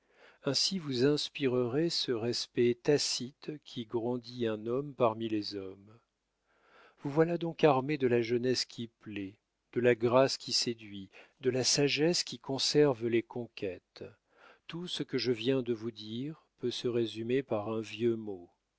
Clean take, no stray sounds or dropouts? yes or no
yes